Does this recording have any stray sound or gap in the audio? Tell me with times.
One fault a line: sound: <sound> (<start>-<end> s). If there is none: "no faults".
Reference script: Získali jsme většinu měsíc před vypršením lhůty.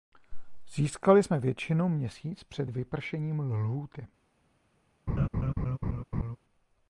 sound: laugh (5.1-6.4 s)